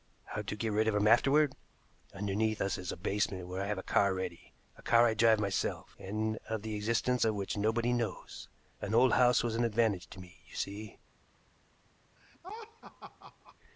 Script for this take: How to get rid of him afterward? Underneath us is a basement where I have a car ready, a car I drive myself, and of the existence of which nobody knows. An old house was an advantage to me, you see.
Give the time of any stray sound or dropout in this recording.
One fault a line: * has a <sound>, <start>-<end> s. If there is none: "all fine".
* has a laugh, 12.2-13.6 s